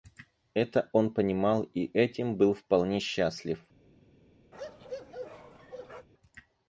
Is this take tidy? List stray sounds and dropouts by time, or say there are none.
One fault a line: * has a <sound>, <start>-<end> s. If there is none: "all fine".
* has a bark, 4.5-6.1 s